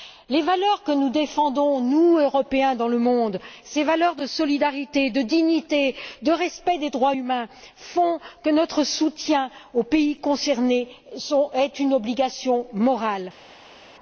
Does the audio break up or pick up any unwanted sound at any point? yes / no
no